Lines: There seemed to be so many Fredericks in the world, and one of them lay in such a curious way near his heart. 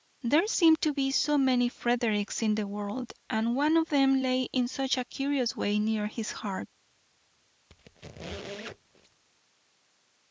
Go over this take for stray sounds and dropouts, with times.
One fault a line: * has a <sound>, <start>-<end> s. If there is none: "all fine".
* has a squeak, 7.7-9.2 s